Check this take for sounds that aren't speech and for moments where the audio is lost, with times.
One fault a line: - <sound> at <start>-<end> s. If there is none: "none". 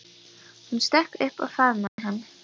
- dropout at 1.9-2.0 s